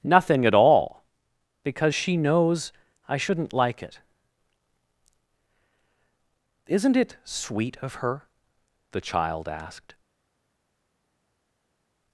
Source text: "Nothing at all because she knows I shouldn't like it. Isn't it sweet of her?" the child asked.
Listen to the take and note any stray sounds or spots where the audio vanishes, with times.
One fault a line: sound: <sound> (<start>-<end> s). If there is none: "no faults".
no faults